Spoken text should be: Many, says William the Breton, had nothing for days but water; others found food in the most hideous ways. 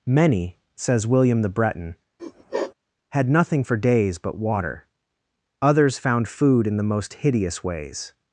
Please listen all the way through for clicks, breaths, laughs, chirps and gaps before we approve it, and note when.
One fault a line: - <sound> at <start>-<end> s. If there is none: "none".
- sniff at 2.2-2.7 s